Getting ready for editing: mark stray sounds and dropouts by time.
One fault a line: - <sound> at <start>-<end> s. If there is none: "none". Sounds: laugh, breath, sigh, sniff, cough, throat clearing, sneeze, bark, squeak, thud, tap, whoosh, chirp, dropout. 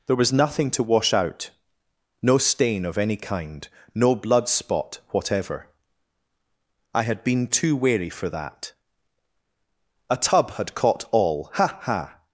none